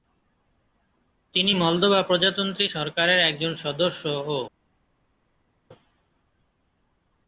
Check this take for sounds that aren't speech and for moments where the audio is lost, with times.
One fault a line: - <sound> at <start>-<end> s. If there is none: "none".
none